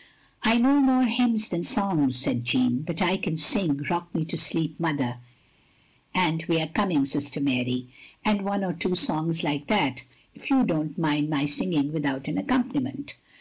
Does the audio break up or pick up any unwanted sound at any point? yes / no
no